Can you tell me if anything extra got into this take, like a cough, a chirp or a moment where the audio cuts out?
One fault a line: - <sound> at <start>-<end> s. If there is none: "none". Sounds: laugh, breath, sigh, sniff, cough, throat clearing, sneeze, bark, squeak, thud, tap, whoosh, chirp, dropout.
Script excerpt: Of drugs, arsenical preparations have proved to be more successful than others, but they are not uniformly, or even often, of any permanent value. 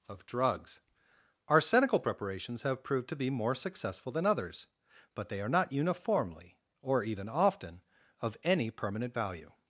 none